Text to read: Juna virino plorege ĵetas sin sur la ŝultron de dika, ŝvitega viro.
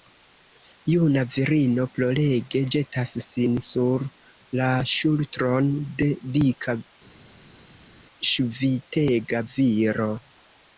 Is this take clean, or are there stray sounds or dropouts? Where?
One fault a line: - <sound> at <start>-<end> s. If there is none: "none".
none